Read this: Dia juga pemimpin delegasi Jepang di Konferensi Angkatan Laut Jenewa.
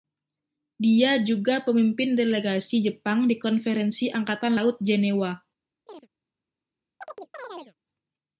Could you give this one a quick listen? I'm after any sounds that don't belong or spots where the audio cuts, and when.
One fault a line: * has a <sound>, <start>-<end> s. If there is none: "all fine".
* has a chirp, 5.9-6.1 s
* has a chirp, 7.0-7.7 s